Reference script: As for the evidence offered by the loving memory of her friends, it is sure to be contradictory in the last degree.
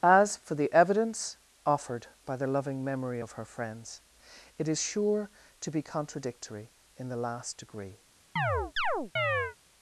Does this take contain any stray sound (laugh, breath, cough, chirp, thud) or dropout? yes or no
yes